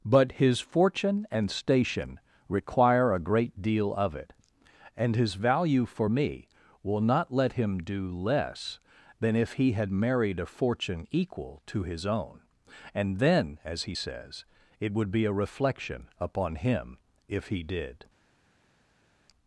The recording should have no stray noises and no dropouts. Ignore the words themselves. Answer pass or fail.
pass